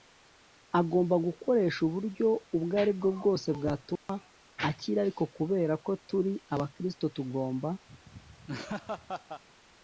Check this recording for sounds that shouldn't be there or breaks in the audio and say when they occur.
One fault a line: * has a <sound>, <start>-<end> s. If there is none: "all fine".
* has a dropout, 4.0-4.1 s
* has a laugh, 7.9-9.4 s